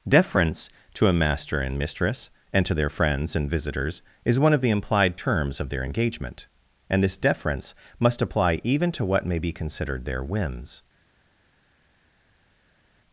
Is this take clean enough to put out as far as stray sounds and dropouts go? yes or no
yes